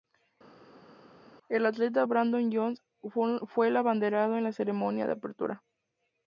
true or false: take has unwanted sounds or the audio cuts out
false